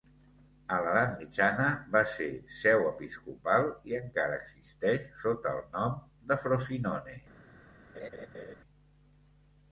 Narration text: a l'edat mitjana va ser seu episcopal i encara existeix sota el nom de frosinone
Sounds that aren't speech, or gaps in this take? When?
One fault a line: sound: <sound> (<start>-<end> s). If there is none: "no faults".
sound: laugh (7.9-8.6 s)